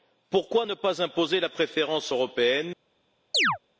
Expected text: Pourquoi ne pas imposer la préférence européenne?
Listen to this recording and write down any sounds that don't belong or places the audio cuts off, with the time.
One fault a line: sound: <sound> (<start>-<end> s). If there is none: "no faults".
sound: chirp (3.3-3.6 s)